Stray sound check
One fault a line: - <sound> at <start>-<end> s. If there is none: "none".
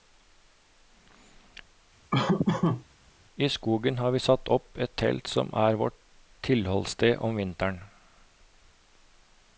- laugh at 2.1-2.8 s